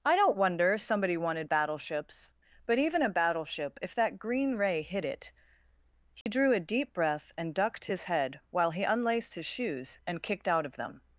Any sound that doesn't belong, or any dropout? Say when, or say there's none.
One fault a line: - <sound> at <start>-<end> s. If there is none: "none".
- dropout at 6.2-6.3 s